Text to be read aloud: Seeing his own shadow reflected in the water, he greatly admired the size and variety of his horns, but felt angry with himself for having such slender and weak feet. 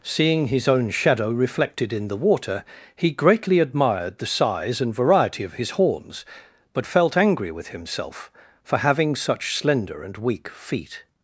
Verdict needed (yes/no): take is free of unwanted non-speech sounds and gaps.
yes